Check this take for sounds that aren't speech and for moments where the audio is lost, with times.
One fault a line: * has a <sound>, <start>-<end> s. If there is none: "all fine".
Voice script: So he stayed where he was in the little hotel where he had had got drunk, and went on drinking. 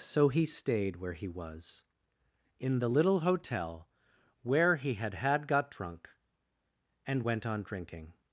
all fine